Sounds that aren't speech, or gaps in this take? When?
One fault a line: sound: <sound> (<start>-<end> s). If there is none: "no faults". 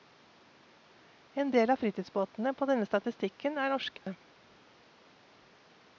sound: dropout (4.0-4.1 s)